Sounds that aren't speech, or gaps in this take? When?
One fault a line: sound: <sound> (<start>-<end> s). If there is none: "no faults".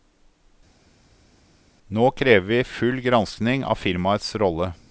no faults